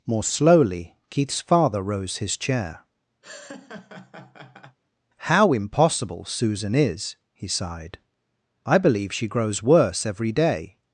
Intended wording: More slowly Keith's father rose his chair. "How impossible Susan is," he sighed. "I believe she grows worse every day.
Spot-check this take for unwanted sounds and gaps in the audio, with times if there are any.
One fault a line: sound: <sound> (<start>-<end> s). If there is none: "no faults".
sound: laugh (3.2-4.8 s)